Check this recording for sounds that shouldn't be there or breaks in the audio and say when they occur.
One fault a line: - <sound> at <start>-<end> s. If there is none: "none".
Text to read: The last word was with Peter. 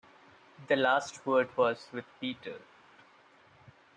none